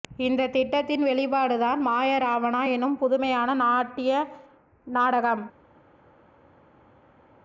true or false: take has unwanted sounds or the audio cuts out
false